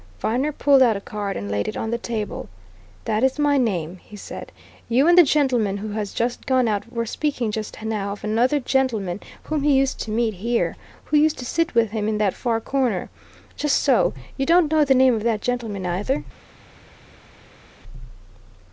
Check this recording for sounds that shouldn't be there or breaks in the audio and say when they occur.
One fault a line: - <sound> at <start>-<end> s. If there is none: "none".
none